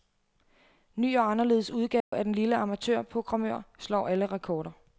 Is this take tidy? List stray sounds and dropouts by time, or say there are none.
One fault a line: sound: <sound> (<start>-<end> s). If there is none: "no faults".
sound: dropout (2.0-2.1 s)